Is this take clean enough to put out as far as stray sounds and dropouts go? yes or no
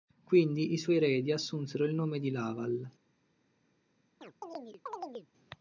no